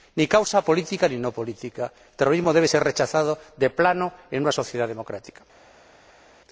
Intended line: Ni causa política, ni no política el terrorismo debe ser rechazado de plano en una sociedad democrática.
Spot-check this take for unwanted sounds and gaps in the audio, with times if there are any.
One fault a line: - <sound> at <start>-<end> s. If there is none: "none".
none